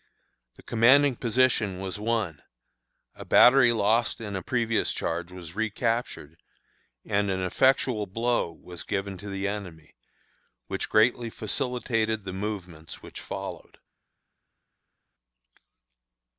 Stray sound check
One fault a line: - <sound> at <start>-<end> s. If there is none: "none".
none